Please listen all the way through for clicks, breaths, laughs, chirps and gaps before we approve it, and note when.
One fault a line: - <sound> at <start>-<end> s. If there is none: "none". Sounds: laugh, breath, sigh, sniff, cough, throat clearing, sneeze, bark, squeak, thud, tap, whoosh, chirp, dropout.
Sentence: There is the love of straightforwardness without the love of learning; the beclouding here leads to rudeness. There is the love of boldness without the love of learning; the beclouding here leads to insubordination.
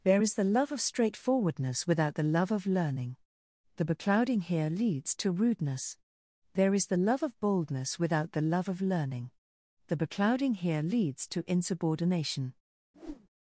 - whoosh at 12.9-13.3 s